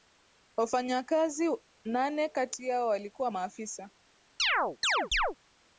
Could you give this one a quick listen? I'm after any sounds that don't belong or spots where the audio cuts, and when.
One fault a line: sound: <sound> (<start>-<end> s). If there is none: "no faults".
sound: chirp (4.4-5.4 s)